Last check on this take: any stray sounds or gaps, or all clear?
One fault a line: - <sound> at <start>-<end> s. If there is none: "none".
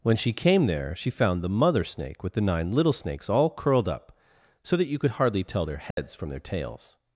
- dropout at 5.9-6.0 s